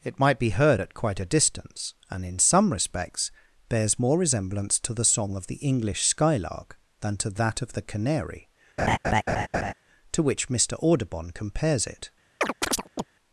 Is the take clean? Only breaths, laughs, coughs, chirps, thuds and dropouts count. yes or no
no